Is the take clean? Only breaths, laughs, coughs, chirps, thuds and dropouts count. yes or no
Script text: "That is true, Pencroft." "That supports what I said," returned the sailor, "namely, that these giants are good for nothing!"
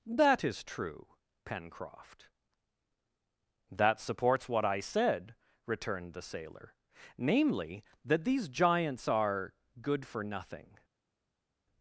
yes